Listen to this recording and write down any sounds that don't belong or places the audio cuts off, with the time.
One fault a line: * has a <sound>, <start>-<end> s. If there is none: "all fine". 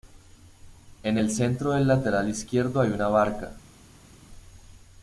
all fine